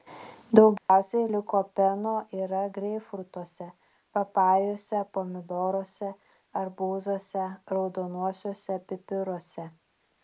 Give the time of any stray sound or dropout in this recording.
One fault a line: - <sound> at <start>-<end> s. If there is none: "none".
- dropout at 0.8-0.9 s